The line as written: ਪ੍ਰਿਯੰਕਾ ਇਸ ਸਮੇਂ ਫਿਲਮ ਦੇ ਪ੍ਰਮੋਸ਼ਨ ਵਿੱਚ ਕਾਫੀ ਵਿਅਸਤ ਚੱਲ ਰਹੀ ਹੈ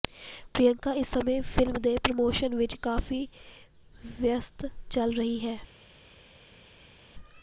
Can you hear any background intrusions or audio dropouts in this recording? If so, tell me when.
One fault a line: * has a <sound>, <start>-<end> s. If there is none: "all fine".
all fine